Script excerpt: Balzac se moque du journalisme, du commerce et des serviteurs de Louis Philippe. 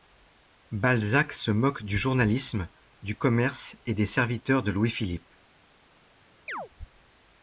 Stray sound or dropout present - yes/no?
yes